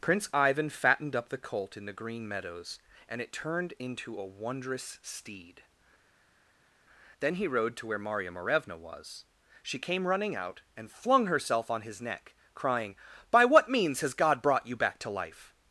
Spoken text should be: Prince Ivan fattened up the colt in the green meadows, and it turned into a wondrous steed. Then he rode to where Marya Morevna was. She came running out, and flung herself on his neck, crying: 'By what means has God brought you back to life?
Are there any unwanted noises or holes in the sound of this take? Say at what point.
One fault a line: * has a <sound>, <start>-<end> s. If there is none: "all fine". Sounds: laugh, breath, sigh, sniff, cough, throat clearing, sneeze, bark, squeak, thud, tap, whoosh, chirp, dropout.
all fine